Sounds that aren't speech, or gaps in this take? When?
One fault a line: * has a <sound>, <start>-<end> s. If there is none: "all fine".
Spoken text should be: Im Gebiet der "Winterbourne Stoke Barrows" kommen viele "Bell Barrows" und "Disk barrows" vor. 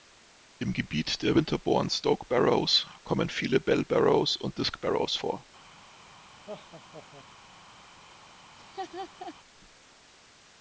* has a laugh, 6.5-7.3 s
* has a laugh, 8.6-9.3 s